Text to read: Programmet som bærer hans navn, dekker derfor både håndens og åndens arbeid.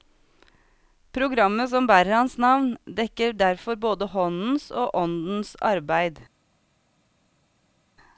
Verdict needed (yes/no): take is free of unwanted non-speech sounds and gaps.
yes